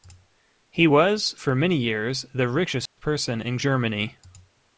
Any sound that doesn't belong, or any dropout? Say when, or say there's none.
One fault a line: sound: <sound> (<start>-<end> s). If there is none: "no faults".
sound: dropout (2.9-3.0 s)